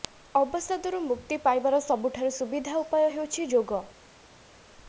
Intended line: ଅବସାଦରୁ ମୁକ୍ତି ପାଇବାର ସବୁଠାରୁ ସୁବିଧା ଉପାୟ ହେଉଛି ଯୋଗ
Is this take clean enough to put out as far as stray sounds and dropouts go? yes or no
yes